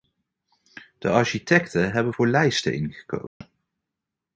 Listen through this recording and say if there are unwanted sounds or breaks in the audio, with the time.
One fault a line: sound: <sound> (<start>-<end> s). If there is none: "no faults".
sound: dropout (3.3-3.4 s)